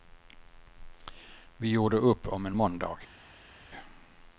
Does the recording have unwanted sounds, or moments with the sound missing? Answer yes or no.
no